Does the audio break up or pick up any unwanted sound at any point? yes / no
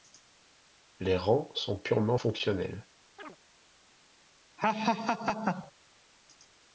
yes